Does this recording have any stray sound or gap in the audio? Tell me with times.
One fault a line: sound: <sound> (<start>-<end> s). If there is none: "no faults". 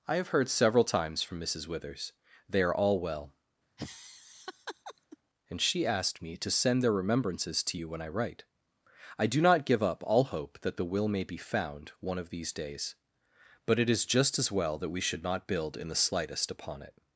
sound: laugh (3.8-5.2 s)